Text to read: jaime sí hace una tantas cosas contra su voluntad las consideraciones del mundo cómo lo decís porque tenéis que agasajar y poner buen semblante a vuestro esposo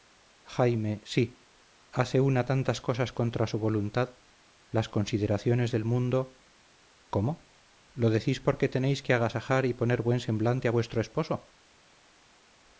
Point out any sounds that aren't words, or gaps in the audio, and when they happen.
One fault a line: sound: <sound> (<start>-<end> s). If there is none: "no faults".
no faults